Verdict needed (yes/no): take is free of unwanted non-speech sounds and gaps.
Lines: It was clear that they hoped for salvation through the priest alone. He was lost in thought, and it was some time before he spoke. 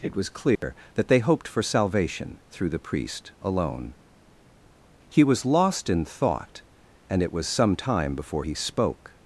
no